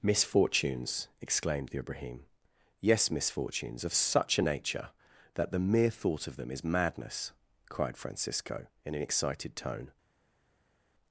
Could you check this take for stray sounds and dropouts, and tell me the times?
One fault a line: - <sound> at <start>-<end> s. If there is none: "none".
none